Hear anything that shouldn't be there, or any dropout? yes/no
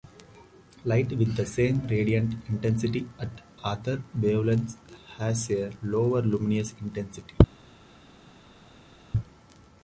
no